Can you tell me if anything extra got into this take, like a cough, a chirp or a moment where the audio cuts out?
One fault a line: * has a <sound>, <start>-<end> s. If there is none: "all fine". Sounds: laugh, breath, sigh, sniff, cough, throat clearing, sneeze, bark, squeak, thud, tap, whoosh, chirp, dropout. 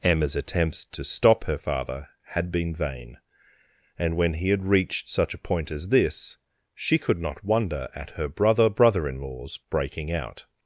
all fine